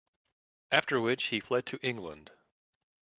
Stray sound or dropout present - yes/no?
no